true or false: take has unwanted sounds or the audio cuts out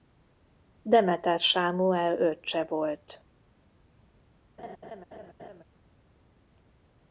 true